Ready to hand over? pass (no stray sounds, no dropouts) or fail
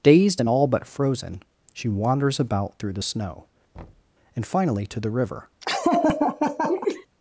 fail